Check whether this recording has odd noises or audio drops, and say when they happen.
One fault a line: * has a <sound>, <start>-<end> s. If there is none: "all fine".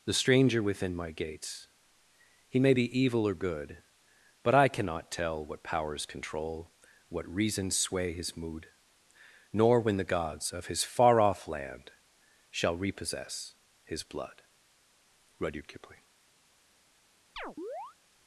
* has a chirp, 17.4-18.0 s